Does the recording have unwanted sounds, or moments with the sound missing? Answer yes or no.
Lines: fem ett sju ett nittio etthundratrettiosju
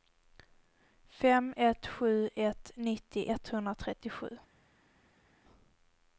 no